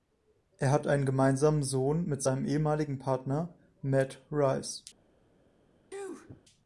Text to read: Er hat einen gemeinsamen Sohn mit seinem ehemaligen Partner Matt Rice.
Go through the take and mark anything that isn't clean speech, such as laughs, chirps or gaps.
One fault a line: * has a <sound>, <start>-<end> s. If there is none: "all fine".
* has a sneeze, 5.9-6.4 s